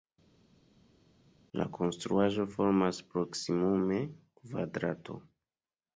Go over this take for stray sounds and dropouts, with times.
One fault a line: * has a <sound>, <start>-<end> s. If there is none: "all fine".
all fine